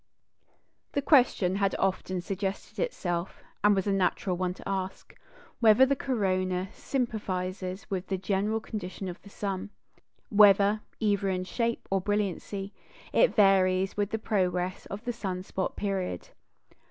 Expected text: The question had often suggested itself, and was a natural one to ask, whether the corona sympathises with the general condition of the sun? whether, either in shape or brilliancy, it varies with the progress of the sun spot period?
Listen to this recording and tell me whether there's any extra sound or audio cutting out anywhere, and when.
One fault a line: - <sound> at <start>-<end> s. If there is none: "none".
none